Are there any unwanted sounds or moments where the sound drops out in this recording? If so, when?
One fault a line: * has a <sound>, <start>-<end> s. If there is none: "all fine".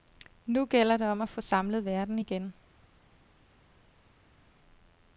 all fine